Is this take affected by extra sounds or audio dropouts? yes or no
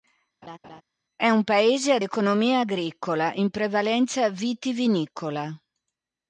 yes